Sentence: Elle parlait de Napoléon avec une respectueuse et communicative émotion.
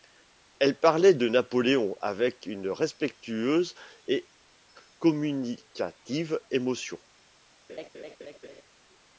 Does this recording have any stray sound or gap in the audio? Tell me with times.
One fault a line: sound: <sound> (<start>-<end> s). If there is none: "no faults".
sound: laugh (7.7-8.6 s)